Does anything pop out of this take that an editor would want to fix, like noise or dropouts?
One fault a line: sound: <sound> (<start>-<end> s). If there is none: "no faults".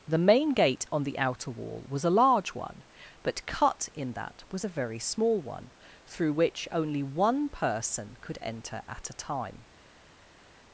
no faults